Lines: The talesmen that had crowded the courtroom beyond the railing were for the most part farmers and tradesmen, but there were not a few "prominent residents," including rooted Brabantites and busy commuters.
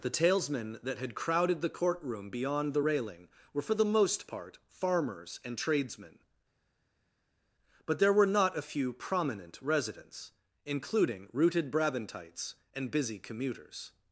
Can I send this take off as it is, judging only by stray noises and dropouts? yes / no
yes